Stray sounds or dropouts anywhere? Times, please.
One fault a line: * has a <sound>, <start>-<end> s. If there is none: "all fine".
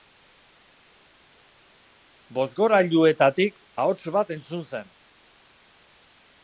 all fine